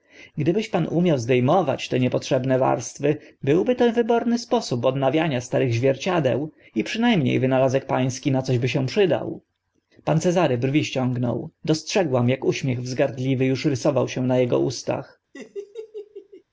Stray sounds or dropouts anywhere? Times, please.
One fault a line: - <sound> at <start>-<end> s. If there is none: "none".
- laugh at 15.3-16.4 s